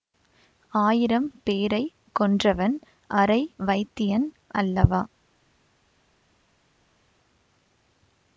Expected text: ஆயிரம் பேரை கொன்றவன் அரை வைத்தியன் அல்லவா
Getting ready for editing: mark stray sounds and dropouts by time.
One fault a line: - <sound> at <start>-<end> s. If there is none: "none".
none